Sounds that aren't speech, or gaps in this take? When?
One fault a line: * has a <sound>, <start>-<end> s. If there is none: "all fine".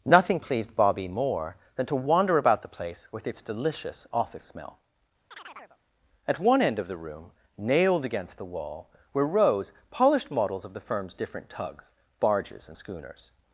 * has a chirp, 5.3-5.8 s